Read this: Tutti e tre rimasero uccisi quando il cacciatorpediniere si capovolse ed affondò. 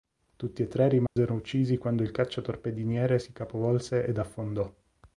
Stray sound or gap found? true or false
true